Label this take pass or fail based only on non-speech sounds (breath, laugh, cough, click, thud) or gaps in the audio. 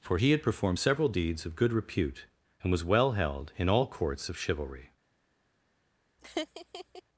fail